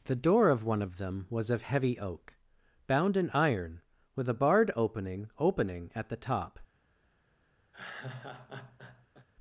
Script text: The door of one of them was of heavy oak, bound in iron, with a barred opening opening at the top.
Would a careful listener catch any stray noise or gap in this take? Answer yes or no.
yes